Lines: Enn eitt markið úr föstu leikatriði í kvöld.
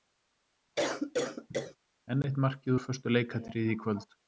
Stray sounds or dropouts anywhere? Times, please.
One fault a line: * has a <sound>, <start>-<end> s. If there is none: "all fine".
* has a cough, 0.8-1.8 s